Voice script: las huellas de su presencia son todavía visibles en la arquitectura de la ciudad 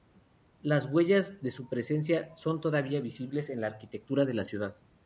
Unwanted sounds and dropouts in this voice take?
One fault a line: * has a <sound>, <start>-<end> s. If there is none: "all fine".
all fine